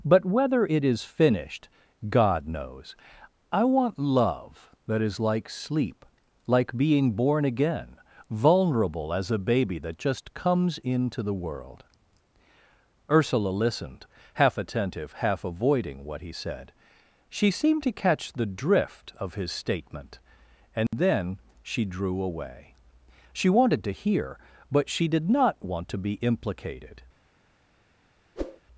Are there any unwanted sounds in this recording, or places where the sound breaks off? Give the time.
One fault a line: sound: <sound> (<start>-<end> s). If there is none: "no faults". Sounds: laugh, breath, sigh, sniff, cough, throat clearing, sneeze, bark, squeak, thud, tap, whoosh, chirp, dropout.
sound: dropout (20.9-20.9 s)
sound: whoosh (28.4-28.6 s)